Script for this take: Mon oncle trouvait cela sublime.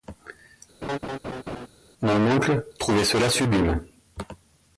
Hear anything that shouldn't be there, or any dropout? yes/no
yes